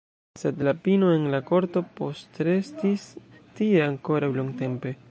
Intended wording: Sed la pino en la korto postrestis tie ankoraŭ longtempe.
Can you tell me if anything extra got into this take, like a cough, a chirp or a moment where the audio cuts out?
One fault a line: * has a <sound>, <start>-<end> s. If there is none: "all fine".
all fine